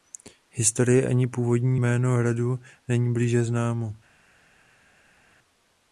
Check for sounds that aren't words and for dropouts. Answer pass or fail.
pass